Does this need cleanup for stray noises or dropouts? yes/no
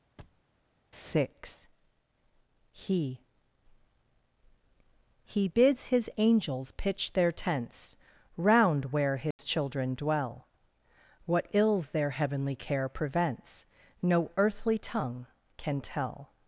yes